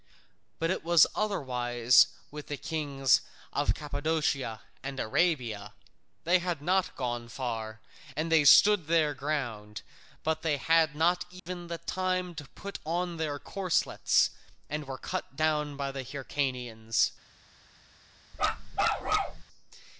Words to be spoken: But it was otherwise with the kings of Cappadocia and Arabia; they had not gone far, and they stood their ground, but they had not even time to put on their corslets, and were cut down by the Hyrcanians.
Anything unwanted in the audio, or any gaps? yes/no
yes